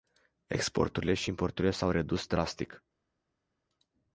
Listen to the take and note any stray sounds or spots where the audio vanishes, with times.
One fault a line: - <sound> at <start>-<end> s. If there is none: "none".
none